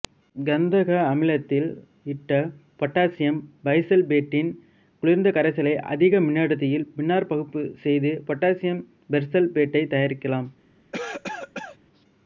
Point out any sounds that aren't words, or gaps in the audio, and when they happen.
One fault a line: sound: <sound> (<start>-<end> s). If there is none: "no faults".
sound: cough (10.9-11.8 s)